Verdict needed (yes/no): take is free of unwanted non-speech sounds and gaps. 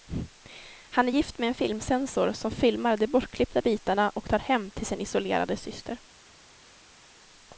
yes